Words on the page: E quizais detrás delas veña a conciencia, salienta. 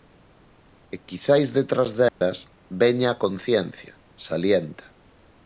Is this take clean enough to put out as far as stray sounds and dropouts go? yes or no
no